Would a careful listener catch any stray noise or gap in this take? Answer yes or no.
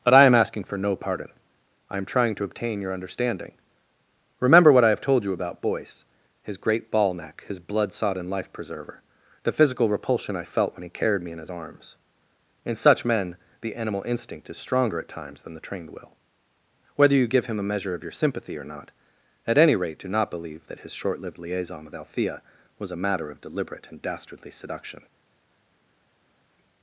no